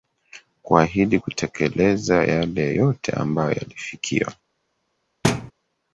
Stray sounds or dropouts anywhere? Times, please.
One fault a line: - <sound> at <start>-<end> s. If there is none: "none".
- thud at 5.2-5.5 s